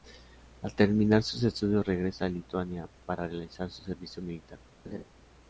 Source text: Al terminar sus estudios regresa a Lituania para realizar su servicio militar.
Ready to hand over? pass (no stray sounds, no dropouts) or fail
fail